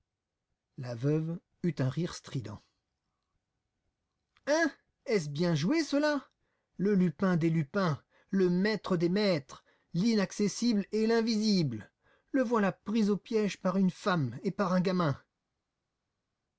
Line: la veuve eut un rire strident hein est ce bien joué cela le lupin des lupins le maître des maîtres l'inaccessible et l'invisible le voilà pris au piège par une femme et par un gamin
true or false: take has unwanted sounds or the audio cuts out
false